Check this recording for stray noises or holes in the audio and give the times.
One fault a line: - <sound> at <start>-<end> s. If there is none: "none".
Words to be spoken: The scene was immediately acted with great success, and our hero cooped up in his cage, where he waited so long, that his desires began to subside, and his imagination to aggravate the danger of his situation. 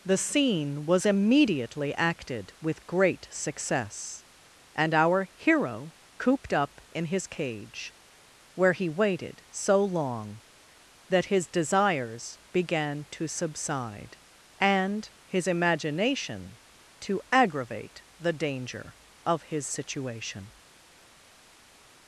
none